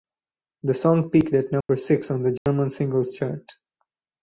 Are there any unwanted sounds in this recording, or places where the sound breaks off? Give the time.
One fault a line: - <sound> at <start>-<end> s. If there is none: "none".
- dropout at 1.6-1.7 s
- dropout at 2.4-2.5 s